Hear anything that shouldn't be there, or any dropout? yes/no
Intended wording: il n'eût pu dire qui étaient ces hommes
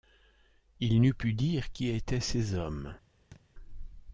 yes